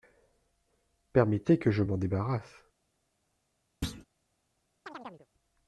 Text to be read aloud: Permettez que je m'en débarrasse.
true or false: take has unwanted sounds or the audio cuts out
true